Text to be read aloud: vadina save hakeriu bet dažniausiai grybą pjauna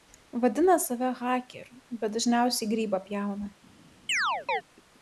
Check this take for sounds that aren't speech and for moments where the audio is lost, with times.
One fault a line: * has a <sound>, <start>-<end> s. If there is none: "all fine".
* has a chirp, 4.1-4.6 s